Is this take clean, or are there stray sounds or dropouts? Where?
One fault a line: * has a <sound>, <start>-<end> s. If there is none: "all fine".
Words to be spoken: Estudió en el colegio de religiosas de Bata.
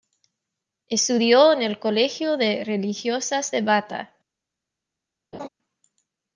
* has a laugh, 5.3-5.5 s